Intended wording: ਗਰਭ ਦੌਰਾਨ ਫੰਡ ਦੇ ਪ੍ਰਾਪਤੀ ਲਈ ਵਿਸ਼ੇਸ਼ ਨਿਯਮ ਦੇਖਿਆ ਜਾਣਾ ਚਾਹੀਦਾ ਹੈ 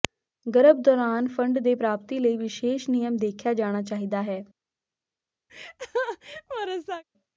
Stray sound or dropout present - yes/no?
yes